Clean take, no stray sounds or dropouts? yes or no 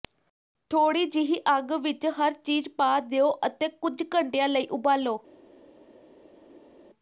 yes